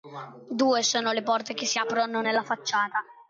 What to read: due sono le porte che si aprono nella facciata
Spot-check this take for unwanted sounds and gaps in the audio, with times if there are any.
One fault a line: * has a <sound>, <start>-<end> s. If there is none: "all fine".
all fine